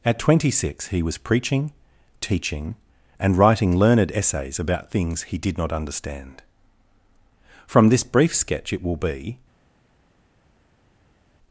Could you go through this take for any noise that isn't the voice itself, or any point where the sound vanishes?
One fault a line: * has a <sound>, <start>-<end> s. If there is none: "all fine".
all fine